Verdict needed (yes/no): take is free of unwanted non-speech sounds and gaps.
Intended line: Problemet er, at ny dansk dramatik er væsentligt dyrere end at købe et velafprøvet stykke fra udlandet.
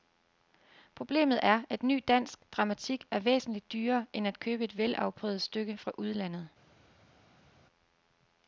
yes